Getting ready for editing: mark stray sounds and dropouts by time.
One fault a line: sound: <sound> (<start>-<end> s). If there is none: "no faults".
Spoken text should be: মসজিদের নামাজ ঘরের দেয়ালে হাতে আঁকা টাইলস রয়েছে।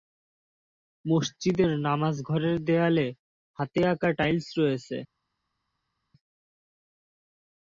no faults